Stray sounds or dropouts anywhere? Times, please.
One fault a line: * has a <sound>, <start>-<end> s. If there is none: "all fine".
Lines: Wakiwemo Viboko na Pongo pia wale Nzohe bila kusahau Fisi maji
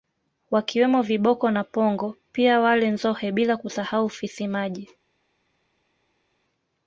all fine